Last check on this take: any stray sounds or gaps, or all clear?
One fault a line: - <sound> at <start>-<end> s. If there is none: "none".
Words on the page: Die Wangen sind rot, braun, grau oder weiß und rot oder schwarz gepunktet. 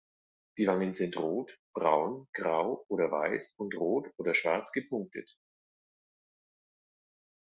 none